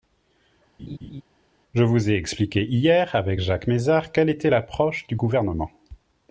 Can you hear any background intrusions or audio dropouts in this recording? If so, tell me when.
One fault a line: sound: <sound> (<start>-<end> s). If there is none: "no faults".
sound: laugh (0.8-1.2 s)